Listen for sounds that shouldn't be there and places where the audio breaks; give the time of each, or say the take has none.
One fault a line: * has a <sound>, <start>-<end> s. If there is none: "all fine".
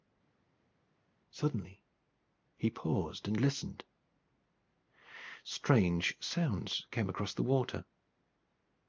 all fine